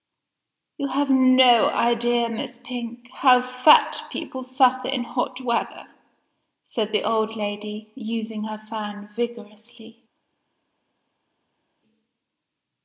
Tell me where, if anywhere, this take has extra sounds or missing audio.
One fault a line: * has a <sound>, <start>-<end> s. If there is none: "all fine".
all fine